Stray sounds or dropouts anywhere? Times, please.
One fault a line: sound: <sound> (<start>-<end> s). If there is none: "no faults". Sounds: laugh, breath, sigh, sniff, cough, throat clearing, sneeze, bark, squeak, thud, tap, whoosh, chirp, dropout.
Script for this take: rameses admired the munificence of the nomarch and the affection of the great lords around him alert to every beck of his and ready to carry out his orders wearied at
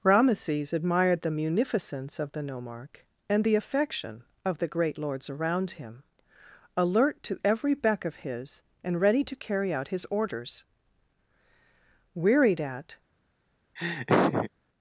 sound: laugh (13.8-14.5 s)